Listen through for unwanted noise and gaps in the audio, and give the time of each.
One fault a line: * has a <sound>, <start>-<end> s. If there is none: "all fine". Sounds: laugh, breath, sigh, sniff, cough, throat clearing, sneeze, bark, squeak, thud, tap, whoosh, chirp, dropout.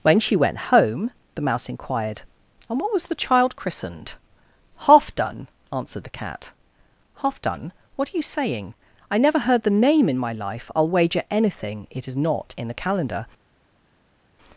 all fine